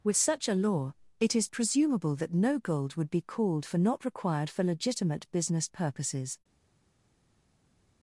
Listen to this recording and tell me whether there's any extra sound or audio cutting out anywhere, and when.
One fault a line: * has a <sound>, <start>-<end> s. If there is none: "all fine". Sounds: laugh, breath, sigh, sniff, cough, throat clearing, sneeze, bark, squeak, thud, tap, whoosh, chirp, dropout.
all fine